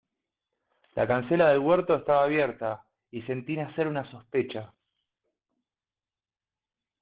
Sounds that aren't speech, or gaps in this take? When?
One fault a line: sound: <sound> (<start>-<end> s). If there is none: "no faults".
no faults